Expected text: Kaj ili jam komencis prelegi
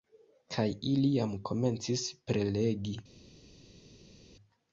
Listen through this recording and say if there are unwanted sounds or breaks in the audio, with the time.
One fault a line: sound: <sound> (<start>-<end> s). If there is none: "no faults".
no faults